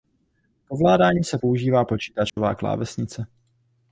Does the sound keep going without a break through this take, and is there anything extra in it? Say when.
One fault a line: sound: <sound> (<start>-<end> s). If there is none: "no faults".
sound: dropout (2.3-2.4 s)